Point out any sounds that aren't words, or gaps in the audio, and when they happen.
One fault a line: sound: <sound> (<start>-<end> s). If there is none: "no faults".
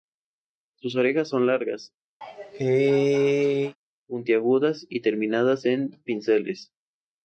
sound: cough (2.2-3.8 s)